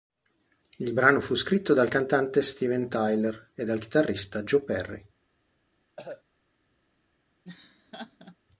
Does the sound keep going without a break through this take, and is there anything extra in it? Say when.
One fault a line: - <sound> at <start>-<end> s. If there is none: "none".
- cough at 6.0-6.2 s
- laugh at 7.4-8.4 s